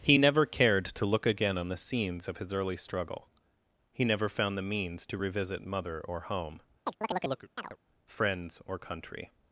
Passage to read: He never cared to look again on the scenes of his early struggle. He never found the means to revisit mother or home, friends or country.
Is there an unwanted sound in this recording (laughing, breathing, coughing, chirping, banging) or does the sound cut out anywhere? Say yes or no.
yes